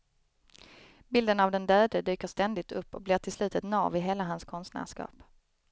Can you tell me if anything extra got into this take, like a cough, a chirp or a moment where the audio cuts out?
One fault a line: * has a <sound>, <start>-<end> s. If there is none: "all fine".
all fine